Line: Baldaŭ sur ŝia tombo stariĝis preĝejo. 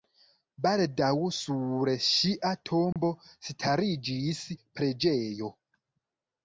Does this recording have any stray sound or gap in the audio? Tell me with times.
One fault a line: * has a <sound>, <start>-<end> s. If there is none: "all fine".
* has a dropout, 2.9-3.0 s